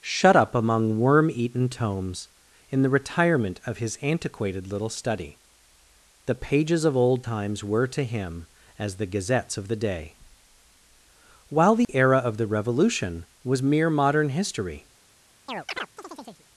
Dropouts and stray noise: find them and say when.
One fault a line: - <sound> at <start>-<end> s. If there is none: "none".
- dropout at 11.8-11.9 s
- chirp at 15.5-16.5 s